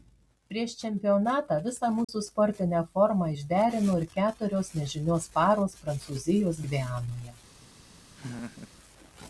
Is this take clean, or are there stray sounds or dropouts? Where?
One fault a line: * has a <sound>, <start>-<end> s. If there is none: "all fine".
* has a dropout, 2.0-2.1 s
* has a laugh, 8.1-8.7 s